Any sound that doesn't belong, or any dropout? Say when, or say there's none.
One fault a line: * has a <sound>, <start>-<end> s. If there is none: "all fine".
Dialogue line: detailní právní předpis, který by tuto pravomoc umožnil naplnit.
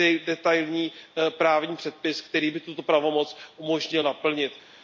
all fine